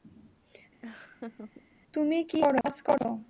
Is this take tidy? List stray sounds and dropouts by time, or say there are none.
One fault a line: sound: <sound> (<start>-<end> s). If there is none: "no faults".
sound: laugh (0.8-1.6 s)
sound: dropout (2.6-2.6 s)